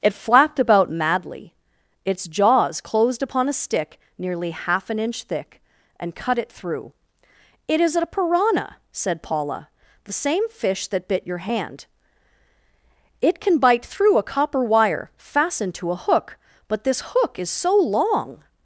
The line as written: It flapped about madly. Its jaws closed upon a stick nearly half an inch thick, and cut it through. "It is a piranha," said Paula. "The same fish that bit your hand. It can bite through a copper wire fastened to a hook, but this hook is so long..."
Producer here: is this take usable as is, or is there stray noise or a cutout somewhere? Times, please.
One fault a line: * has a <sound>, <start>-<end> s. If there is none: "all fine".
all fine